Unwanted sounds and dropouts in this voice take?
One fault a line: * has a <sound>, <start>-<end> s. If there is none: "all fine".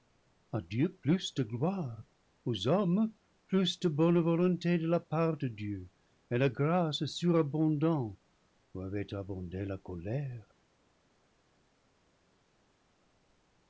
all fine